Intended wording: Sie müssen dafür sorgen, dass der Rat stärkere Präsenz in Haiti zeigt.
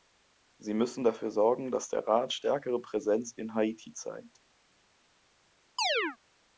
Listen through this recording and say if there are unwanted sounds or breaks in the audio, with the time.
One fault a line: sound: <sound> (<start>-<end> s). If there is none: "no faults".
sound: chirp (5.8-6.2 s)